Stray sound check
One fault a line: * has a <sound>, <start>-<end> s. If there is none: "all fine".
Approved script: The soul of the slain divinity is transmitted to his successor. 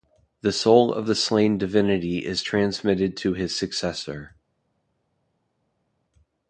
all fine